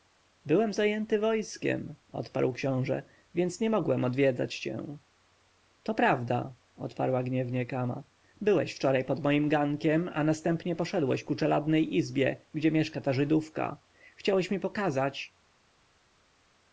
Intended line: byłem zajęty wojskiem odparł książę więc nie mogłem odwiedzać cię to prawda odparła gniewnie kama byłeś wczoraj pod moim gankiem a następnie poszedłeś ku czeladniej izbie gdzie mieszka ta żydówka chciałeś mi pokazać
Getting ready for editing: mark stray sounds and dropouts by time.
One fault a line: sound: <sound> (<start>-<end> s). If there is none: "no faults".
no faults